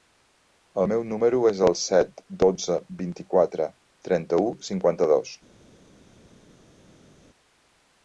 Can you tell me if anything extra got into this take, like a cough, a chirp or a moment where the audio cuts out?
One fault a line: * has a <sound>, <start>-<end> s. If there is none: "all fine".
all fine